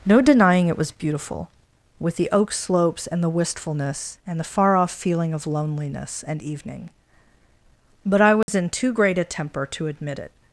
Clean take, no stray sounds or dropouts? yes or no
no